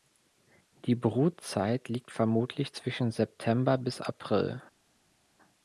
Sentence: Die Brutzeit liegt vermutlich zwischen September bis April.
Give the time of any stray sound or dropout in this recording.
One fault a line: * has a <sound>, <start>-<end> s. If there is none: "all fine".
all fine